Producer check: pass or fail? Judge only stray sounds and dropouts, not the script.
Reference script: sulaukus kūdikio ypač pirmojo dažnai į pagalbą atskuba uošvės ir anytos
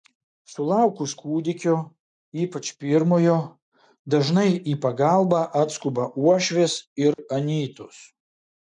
fail